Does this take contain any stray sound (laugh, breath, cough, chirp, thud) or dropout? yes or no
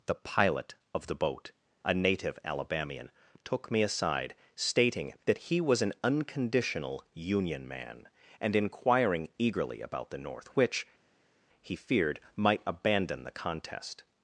no